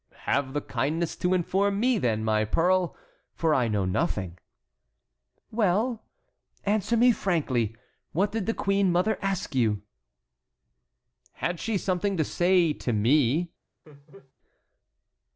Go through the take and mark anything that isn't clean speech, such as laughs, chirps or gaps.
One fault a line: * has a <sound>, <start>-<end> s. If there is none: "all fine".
* has a laugh, 13.8-14.3 s